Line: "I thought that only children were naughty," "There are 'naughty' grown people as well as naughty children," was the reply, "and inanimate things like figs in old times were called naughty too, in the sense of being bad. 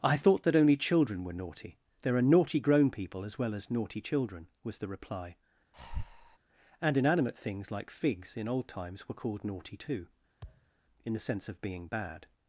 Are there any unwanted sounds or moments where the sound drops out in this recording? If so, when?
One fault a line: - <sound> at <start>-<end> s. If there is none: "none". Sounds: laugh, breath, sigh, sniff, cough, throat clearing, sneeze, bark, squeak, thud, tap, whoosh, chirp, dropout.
- breath at 5.7-6.4 s
- thud at 10.4-10.7 s